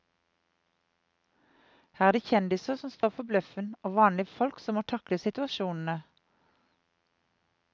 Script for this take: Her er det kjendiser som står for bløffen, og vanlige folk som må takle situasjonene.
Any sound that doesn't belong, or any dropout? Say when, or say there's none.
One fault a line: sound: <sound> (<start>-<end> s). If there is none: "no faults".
sound: dropout (3.0-3.0 s)